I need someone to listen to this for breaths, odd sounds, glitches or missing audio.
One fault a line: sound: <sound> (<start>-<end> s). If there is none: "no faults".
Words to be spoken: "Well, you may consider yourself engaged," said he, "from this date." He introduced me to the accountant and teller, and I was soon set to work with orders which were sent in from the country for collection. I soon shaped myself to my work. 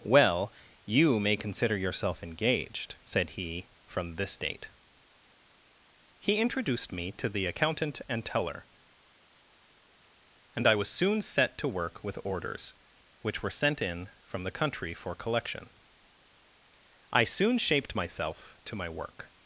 no faults